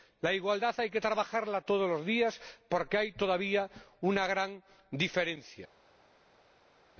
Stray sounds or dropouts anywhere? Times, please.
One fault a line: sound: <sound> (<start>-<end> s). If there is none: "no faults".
no faults